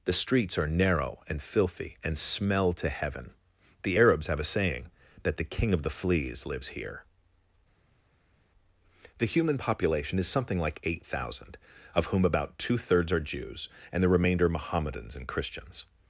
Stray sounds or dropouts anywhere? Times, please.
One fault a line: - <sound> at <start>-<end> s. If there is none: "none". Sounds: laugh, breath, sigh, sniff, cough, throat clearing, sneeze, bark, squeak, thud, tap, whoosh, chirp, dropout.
none